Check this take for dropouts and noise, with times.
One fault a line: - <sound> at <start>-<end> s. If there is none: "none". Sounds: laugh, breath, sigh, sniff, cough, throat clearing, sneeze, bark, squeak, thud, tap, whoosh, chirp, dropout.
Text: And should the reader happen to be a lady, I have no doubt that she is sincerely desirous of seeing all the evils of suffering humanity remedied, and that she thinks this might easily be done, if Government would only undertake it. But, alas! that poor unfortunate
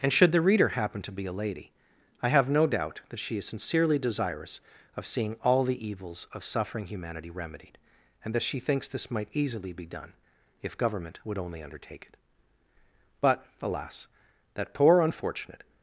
none